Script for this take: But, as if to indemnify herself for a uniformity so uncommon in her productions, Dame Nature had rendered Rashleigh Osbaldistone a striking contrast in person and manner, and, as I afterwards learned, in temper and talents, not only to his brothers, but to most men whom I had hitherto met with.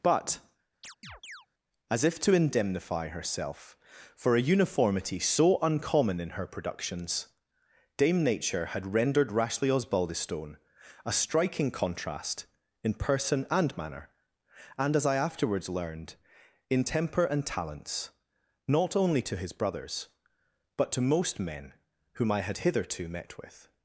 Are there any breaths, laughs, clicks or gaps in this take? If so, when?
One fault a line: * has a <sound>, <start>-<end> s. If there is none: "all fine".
* has a chirp, 0.8-1.5 s